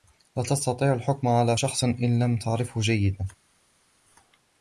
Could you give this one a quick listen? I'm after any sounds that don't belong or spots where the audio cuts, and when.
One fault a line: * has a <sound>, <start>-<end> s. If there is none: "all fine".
all fine